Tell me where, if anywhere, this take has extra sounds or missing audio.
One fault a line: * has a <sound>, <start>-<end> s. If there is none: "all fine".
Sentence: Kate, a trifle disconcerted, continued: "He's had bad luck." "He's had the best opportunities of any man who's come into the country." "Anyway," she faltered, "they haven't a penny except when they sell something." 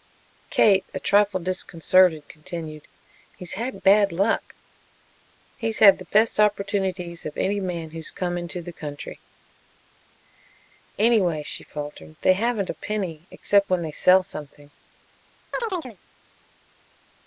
* has a chirp, 15.5-16.0 s